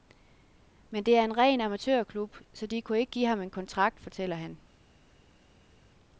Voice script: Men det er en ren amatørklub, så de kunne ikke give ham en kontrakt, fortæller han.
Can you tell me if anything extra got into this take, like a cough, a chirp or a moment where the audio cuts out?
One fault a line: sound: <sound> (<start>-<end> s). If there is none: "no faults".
no faults